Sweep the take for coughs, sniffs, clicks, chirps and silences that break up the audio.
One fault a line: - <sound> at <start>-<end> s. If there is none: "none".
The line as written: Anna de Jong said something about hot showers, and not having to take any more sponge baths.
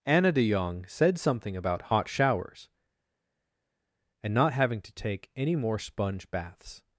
none